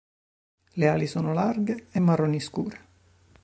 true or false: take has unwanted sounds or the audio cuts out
false